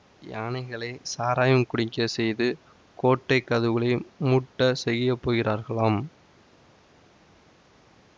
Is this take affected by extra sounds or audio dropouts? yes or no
no